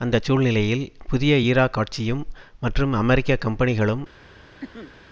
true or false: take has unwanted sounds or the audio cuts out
true